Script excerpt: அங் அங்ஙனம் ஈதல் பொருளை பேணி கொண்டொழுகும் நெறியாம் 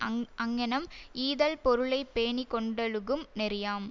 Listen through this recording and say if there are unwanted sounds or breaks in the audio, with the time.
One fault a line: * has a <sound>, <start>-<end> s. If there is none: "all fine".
all fine